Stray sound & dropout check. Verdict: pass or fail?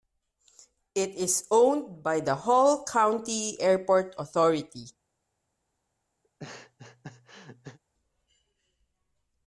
fail